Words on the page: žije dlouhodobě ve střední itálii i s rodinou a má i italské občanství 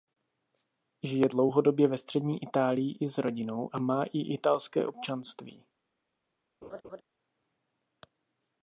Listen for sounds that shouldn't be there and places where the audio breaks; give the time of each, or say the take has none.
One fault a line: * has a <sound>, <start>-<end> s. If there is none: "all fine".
* has a laugh, 6.6-7.0 s